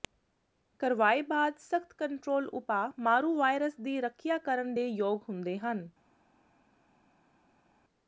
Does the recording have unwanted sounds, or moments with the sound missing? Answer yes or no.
no